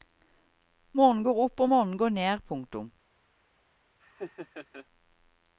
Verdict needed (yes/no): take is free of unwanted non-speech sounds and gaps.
no